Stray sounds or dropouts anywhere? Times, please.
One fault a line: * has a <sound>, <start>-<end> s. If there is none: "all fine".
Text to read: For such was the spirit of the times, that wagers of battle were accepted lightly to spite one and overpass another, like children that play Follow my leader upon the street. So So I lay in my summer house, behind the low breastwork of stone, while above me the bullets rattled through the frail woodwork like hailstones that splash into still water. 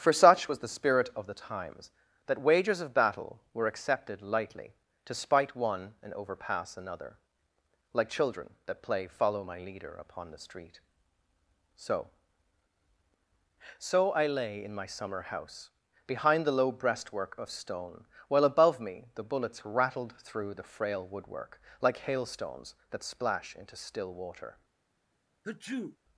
* has a sneeze, 25.4-26.0 s